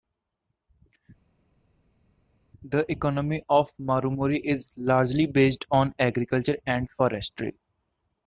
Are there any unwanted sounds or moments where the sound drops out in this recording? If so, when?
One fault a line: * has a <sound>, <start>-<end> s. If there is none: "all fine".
all fine